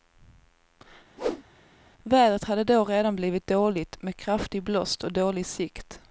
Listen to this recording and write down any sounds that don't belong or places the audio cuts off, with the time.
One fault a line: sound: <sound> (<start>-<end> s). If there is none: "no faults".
sound: whoosh (1.2-1.4 s)